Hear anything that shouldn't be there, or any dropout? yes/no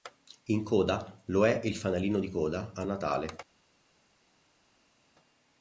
no